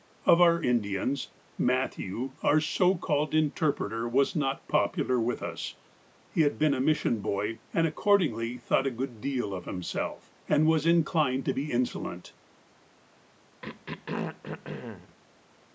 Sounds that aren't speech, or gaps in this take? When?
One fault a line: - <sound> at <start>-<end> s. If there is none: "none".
- throat clearing at 13.6-15.2 s